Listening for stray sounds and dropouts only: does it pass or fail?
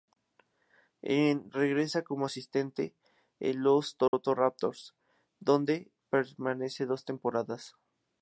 fail